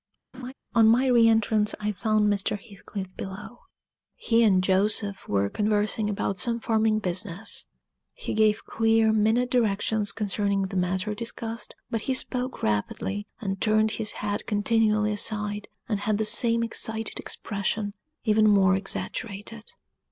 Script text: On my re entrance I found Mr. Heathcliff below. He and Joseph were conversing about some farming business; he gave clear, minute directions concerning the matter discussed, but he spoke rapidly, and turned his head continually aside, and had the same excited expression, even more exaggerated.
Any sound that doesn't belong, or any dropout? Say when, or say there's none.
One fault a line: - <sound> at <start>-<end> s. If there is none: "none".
- laugh at 0.3-0.5 s